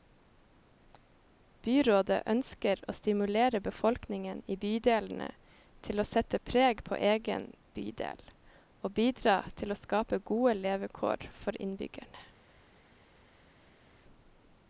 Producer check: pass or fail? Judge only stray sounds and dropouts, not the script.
pass